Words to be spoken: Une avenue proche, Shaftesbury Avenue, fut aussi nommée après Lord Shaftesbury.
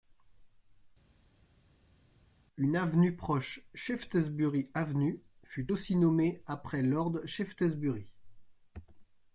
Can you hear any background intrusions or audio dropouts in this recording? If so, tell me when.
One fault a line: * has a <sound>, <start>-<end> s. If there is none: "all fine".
all fine